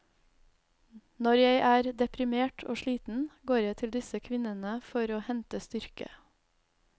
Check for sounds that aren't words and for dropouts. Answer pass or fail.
pass